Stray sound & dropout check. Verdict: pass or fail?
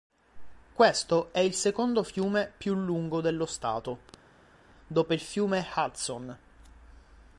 pass